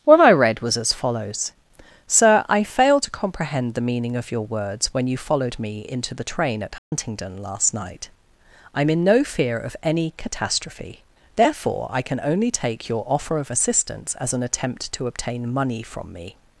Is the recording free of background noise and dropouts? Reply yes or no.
no